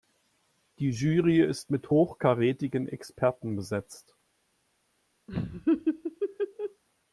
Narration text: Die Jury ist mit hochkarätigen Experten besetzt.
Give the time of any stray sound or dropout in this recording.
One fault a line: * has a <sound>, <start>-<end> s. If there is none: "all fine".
* has a laugh, 5.3-6.8 s